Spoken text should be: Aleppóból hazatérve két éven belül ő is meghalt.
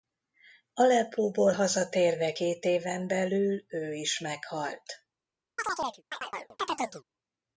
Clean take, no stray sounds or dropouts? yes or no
no